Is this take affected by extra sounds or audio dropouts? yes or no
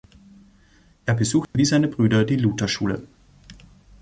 yes